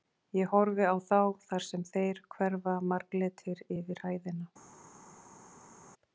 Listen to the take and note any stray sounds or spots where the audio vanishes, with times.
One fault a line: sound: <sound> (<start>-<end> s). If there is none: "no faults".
no faults